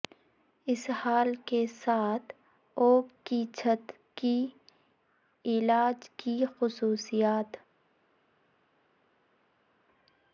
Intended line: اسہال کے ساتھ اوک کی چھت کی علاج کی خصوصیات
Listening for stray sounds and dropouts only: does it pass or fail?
pass